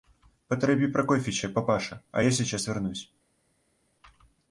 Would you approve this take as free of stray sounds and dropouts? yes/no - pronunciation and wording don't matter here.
yes